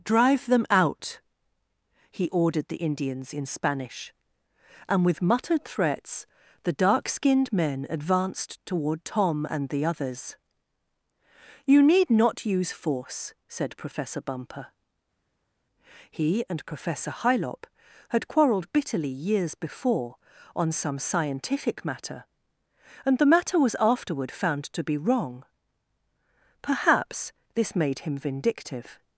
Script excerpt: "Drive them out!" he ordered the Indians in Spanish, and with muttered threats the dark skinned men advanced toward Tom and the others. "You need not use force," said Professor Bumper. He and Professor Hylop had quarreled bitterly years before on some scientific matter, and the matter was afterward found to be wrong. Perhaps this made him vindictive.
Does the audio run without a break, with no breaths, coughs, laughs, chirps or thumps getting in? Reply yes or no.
yes